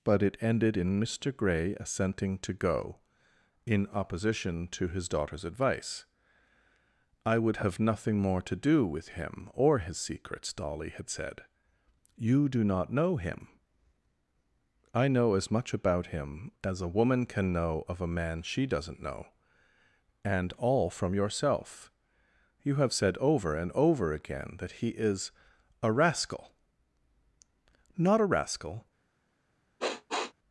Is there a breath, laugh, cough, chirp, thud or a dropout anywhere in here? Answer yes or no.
yes